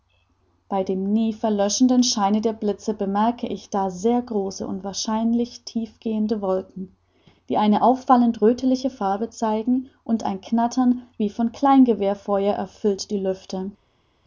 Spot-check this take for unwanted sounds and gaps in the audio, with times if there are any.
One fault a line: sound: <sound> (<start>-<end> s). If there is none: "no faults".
no faults